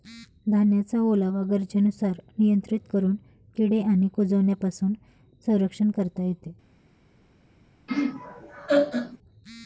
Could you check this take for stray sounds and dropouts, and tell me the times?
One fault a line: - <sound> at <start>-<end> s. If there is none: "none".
- laugh at 7.9-9.2 s